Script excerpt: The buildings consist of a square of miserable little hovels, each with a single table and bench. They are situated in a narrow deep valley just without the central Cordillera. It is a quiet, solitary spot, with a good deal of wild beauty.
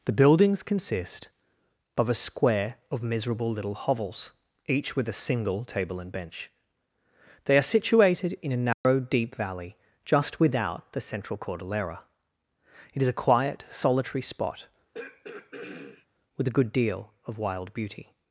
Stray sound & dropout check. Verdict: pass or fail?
fail